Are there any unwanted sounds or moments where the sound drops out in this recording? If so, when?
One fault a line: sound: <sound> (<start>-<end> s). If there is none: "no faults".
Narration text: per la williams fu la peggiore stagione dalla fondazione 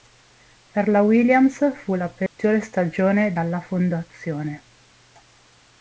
sound: dropout (2.3-2.4 s)